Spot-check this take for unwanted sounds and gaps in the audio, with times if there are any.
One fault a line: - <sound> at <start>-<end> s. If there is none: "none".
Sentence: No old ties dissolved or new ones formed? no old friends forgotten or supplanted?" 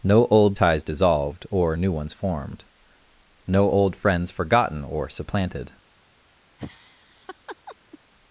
- laugh at 6.6-8.0 s